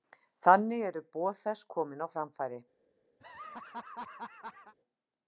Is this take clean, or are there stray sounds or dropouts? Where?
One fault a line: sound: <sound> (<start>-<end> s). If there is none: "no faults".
sound: laugh (3.2-4.7 s)